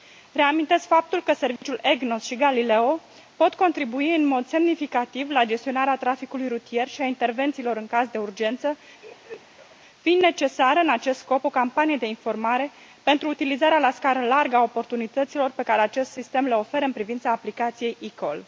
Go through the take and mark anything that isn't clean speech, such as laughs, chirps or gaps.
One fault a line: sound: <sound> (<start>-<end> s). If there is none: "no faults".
sound: dropout (1.6-1.6 s)
sound: laugh (9.0-9.8 s)